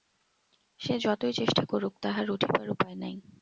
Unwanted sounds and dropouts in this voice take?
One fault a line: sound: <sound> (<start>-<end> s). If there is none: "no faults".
no faults